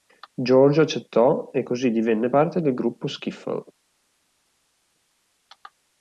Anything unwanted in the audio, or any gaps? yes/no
no